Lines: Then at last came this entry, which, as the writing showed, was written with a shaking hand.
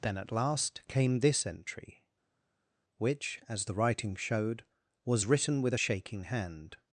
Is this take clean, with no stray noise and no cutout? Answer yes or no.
yes